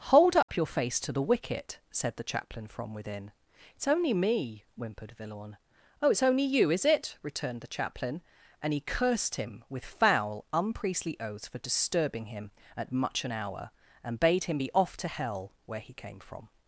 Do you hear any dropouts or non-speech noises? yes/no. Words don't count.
yes